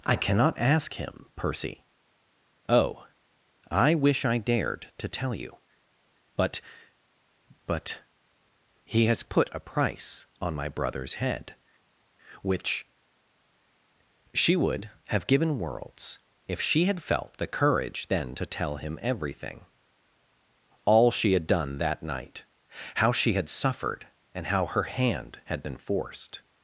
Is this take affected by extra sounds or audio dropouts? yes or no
no